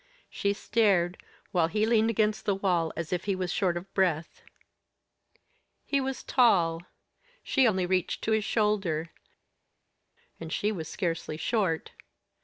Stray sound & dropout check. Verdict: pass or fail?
pass